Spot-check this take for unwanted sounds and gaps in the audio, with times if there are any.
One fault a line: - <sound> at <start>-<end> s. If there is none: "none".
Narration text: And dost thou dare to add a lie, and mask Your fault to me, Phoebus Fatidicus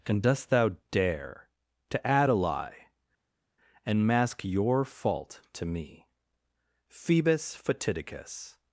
none